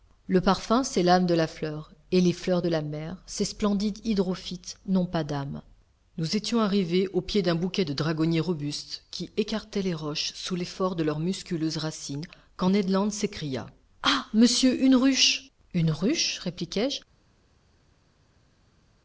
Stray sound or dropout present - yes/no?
no